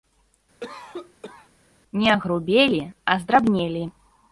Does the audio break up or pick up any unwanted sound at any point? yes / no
yes